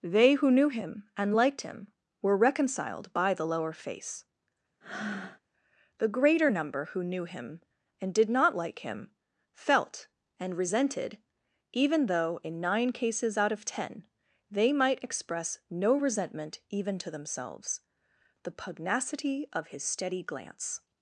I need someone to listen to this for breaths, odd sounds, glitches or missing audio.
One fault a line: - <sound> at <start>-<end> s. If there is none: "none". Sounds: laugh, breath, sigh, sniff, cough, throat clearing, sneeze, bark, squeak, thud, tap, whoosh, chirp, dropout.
- breath at 4.8-5.4 s